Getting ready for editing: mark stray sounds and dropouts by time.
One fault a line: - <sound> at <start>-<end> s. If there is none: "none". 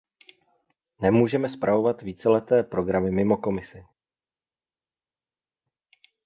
none